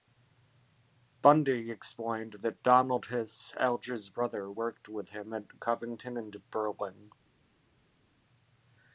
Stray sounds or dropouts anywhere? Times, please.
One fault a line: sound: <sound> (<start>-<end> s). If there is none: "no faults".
no faults